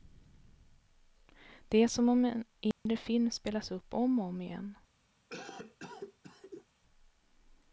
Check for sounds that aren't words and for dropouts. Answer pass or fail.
fail